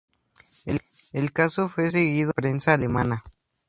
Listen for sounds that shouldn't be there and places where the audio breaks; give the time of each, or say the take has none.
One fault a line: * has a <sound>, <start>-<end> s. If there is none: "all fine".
all fine